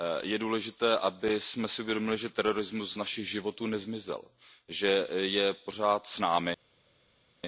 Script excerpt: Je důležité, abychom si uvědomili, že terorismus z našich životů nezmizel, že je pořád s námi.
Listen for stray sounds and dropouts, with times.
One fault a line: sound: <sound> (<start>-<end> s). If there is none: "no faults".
no faults